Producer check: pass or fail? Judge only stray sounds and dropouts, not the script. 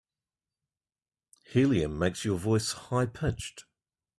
pass